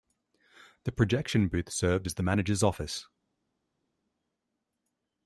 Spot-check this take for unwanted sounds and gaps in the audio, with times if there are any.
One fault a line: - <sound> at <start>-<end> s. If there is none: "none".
none